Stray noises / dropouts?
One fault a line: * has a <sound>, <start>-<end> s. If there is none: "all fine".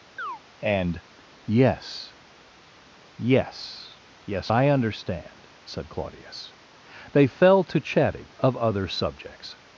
* has a chirp, 0.2-0.4 s